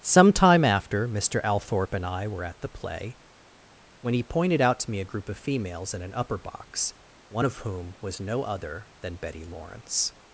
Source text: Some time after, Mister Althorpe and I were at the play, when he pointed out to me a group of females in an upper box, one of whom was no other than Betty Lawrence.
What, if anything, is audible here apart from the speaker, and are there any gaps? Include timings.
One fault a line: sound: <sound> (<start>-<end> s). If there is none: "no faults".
no faults